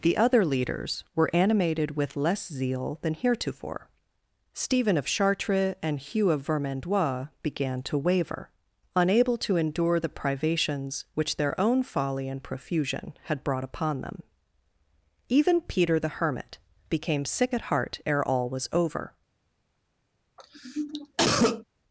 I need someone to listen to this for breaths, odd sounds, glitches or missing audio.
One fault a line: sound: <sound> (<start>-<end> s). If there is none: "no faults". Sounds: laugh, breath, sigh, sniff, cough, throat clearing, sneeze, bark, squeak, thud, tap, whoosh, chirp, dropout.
sound: cough (20.4-21.6 s)